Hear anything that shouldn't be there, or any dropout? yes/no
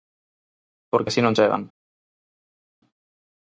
no